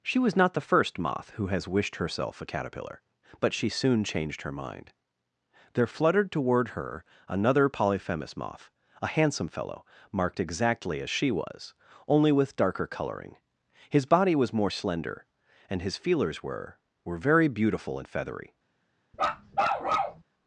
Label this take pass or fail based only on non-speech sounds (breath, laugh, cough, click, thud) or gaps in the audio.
fail